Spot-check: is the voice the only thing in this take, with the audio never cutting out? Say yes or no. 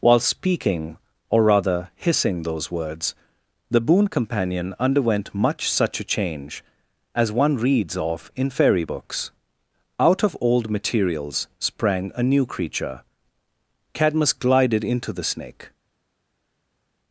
yes